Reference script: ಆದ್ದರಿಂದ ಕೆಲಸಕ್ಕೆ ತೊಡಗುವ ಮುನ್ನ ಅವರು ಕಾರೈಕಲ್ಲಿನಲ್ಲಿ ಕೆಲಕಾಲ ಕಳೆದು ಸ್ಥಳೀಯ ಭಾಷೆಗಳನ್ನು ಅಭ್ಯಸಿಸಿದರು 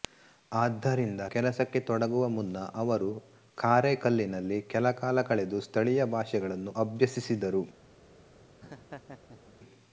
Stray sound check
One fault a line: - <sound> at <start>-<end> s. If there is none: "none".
- laugh at 8.6-9.6 s